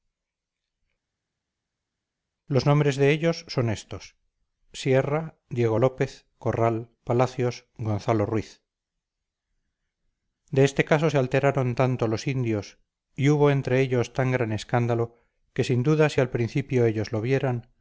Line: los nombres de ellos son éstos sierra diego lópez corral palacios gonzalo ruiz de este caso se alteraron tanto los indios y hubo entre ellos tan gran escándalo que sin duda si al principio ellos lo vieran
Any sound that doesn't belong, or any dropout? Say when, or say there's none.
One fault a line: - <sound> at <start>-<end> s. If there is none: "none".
none